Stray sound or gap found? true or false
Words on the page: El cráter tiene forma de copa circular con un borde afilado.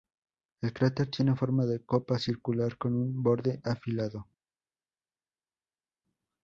false